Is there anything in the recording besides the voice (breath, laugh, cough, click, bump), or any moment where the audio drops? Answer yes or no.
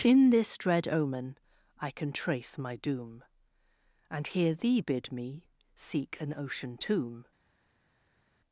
no